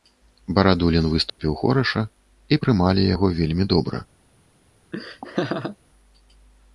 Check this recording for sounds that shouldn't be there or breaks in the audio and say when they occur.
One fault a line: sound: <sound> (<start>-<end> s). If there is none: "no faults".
sound: dropout (1.3-1.4 s)
sound: laugh (4.9-5.8 s)